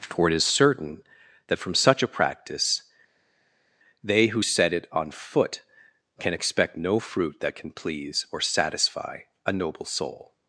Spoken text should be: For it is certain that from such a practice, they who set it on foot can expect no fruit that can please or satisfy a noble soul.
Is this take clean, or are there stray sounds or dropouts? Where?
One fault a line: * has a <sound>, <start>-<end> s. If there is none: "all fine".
all fine